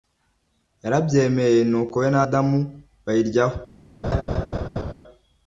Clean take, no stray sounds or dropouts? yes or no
no